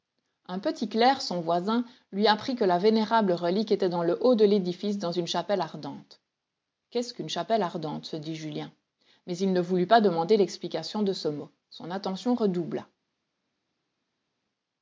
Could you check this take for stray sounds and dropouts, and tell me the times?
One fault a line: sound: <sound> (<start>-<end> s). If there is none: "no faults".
no faults